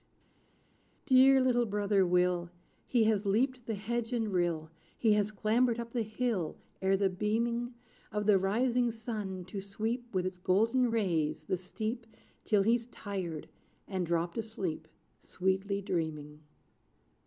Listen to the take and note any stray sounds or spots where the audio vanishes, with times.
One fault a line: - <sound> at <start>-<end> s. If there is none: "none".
none